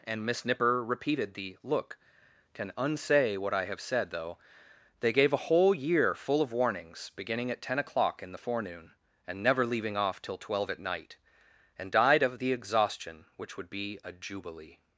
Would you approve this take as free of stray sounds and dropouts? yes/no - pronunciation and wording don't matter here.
yes